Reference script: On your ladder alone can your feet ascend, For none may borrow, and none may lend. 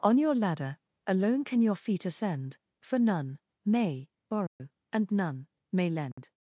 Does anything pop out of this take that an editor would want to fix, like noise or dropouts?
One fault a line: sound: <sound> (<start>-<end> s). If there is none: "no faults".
sound: dropout (4.5-4.6 s)
sound: dropout (6.1-6.2 s)